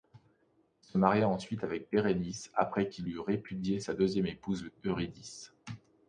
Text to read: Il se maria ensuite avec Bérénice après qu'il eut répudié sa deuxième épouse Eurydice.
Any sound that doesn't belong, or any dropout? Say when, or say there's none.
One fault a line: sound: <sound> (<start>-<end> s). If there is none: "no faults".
no faults